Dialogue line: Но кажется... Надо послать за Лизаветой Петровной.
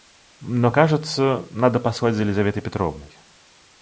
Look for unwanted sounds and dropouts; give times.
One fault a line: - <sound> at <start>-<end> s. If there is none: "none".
none